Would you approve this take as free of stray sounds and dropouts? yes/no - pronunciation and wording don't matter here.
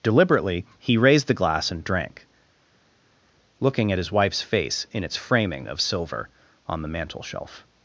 yes